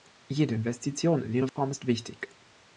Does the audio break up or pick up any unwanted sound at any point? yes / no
yes